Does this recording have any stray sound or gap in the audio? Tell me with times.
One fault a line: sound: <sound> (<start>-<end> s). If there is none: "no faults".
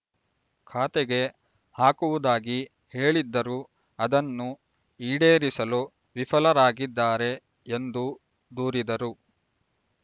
no faults